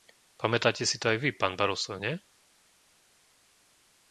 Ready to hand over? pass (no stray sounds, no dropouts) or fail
pass